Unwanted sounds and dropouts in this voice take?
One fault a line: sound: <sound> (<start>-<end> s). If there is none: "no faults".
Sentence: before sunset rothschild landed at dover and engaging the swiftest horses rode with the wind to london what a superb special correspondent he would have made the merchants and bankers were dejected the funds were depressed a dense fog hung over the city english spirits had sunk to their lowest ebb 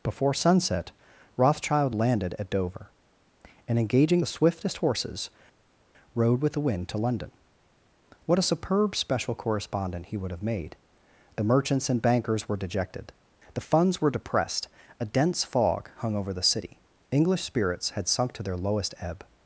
no faults